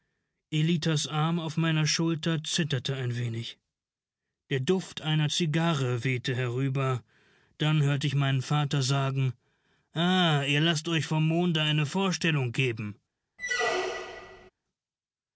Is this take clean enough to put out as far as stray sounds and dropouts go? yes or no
no